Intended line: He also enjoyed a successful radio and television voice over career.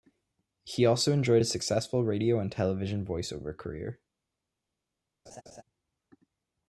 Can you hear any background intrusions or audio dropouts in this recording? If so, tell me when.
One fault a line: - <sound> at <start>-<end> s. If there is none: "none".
- laugh at 5.3-5.6 s